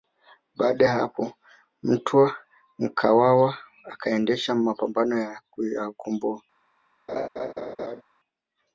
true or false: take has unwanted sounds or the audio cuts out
true